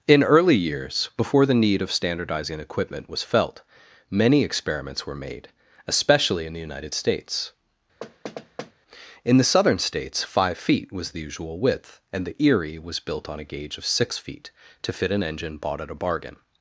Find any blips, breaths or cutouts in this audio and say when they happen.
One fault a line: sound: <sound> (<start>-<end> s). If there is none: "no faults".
sound: thud (8.0-8.7 s)